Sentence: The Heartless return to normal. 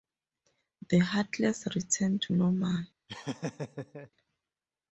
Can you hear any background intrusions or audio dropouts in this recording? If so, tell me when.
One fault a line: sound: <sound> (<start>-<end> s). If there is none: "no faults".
sound: laugh (3.1-4.1 s)